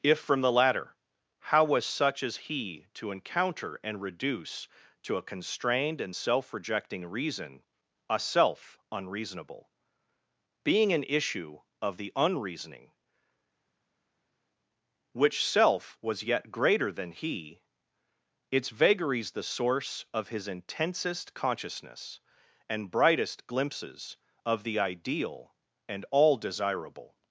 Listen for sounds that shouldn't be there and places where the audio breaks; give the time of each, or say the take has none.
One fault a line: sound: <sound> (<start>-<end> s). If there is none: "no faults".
no faults